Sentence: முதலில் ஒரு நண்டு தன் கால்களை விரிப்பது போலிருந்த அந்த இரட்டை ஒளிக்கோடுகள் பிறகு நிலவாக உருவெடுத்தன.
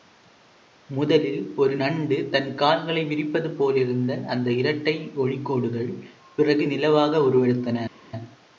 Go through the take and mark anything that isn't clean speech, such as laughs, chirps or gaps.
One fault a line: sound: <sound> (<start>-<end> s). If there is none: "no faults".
no faults